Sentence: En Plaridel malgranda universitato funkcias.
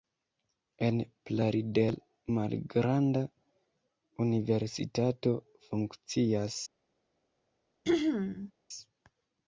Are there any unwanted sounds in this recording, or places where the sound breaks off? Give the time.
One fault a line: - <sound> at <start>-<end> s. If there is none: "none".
- throat clearing at 7.8-8.5 s